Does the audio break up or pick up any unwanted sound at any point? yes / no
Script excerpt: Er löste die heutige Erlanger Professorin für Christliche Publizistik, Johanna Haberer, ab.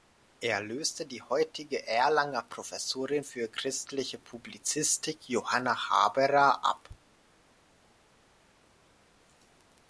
no